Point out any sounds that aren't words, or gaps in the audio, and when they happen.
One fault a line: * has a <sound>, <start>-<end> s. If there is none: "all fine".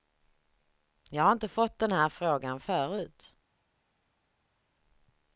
all fine